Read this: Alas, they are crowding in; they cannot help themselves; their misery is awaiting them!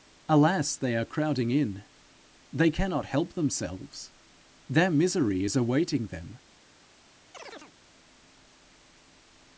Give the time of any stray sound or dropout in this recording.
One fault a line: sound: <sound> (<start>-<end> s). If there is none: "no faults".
sound: chirp (7.3-7.7 s)